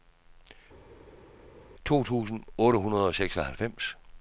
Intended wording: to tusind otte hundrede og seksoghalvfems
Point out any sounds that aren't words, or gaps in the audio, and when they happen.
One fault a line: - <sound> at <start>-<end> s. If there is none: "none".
none